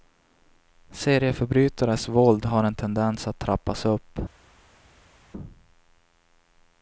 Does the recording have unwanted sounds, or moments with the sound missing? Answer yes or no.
no